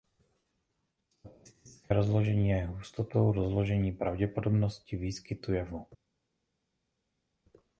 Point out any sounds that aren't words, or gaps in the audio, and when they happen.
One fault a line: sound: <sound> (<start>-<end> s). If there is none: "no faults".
no faults